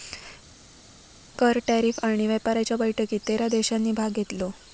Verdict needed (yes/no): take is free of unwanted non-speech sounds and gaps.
yes